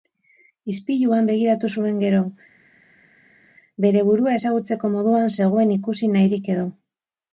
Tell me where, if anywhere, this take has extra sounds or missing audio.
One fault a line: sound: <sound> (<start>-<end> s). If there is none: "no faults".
no faults